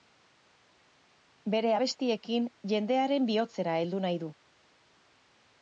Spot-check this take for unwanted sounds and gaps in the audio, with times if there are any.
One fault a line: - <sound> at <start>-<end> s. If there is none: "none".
none